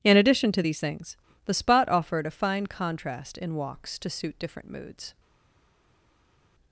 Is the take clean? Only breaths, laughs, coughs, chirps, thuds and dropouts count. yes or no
yes